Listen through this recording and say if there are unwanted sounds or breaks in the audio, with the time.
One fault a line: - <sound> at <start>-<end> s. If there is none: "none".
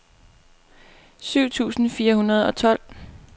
none